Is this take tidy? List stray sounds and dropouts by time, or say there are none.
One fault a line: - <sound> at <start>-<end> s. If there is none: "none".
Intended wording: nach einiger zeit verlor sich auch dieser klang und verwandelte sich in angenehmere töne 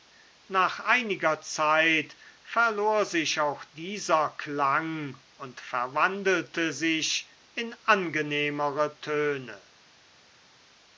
none